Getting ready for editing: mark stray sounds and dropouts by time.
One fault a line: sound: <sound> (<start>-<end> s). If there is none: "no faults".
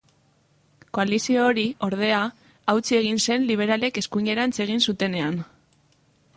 no faults